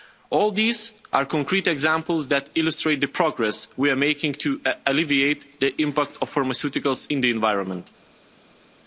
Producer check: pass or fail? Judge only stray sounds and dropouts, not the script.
pass